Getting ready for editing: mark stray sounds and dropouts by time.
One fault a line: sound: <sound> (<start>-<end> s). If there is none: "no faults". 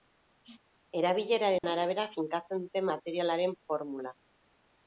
sound: dropout (1.6-1.6 s)